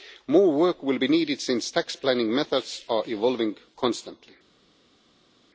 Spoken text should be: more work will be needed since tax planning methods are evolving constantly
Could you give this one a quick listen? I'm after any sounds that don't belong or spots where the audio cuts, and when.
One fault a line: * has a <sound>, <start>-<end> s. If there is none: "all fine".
all fine